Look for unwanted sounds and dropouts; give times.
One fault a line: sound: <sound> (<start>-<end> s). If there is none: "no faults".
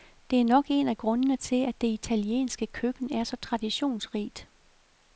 no faults